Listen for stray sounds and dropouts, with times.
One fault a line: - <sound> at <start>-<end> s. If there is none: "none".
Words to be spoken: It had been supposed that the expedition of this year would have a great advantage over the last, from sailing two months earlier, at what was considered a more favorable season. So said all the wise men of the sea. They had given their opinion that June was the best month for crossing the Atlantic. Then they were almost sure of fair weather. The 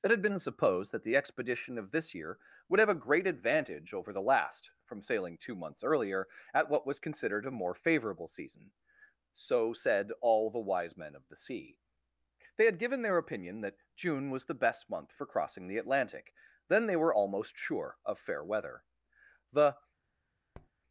- tap at 20.5-20.7 s